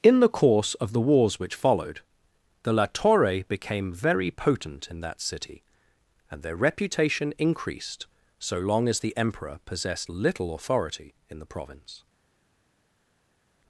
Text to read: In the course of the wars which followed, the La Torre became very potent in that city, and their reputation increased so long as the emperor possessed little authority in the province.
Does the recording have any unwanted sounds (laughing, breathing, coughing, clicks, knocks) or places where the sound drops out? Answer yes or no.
no